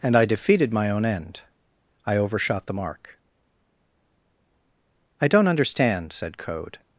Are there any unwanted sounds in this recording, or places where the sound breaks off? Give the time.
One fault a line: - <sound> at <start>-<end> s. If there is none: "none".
none